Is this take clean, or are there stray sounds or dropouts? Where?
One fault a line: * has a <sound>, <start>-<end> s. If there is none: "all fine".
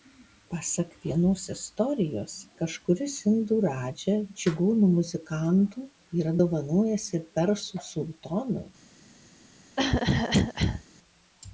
* has a cough, 9.8-10.8 s